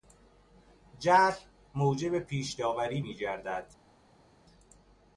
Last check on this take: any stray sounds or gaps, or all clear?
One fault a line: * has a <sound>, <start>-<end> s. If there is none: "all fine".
all fine